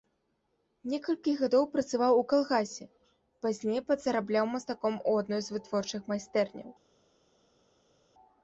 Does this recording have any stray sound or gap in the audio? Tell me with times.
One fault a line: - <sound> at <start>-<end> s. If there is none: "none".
none